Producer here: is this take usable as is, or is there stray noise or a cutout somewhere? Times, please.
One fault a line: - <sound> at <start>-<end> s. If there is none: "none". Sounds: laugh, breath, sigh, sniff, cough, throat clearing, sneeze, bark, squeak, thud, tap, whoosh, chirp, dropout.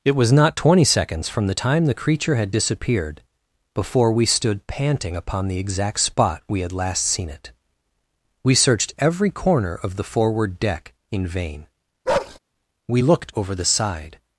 - bark at 12.1-12.4 s